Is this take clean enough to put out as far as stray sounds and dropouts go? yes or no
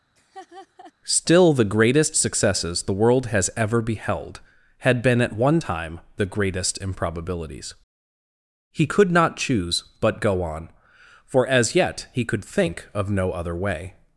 no